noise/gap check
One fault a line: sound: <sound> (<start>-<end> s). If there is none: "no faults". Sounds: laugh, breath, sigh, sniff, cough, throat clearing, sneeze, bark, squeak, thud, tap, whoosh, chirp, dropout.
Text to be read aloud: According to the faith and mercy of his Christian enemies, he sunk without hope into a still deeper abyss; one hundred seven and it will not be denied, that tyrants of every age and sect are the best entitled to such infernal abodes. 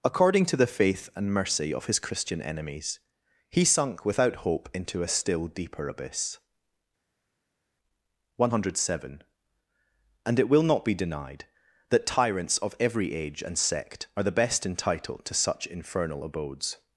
no faults